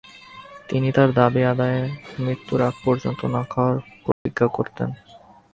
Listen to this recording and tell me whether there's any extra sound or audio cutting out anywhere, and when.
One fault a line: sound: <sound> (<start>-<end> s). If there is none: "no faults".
sound: dropout (4.1-4.3 s)